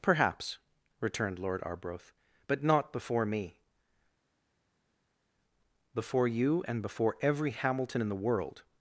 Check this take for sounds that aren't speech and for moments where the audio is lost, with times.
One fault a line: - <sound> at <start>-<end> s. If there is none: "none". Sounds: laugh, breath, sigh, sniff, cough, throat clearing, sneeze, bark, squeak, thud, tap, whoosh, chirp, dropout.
none